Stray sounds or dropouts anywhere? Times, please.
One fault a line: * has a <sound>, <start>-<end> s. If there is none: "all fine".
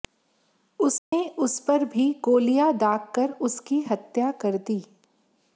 * has a dropout, 1.0-1.1 s